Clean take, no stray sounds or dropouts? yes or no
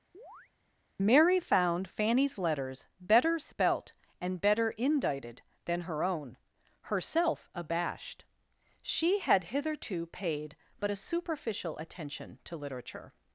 no